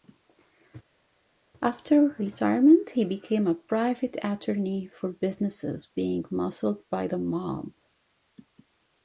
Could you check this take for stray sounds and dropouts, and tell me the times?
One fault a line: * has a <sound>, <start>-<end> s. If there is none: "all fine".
all fine